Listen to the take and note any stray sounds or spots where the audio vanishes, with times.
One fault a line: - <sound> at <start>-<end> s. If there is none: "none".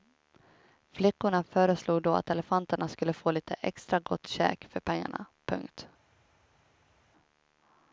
none